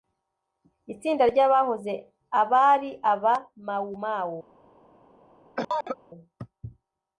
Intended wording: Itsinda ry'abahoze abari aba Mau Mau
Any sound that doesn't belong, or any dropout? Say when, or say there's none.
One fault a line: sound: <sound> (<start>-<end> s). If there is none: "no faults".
sound: cough (5.6-6.0 s)